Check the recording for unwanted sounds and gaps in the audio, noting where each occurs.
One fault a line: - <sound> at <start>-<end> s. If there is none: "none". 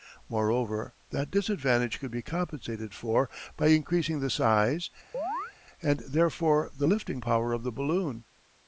- chirp at 5.1-5.5 s